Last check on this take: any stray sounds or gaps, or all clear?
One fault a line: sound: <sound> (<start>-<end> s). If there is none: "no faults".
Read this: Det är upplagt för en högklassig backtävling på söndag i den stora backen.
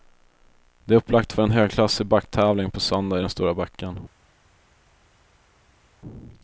no faults